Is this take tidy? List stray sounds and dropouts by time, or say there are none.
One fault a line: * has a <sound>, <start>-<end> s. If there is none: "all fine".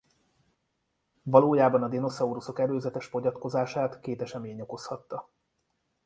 all fine